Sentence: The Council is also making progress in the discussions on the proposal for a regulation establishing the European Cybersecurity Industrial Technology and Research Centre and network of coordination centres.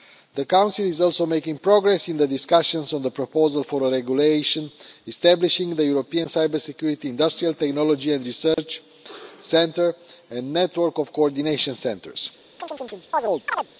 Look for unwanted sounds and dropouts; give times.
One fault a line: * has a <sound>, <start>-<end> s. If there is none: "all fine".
* has a dropout, 8.5-8.6 s
* has a chirp, 12.6-13.7 s